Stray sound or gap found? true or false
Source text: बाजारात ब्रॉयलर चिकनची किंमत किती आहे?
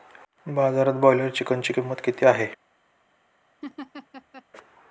true